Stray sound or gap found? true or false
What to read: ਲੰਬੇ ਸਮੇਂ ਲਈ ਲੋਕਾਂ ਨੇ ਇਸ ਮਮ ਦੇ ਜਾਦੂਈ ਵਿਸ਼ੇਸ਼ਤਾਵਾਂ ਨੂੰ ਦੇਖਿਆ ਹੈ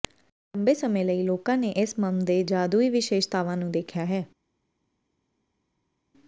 false